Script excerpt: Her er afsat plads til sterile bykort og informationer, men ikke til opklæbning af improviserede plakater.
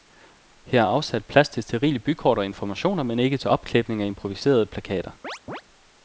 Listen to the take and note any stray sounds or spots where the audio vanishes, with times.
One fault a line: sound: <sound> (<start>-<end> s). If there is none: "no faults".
sound: chirp (5.2-5.6 s)